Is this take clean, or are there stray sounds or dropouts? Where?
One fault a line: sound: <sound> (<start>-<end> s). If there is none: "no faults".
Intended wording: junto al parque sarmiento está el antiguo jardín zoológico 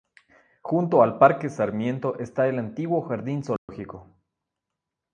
sound: dropout (3.6-3.7 s)